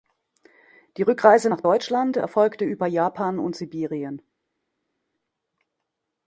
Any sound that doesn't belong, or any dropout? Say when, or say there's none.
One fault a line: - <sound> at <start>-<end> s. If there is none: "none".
none